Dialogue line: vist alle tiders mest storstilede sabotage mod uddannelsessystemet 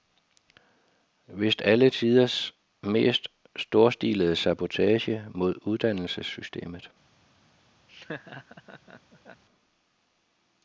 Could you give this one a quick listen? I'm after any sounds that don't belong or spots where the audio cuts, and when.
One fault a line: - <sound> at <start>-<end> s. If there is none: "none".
- laugh at 7.9-9.4 s